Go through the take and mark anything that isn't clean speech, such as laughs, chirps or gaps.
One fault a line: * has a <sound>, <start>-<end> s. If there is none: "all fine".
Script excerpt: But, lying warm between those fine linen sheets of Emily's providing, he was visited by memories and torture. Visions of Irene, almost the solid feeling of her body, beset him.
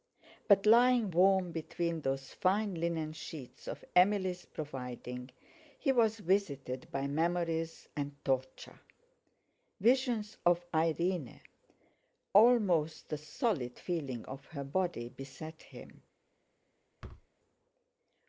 * has a thud, 17.0-17.3 s